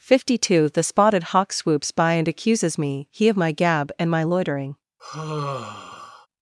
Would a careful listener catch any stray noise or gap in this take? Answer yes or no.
yes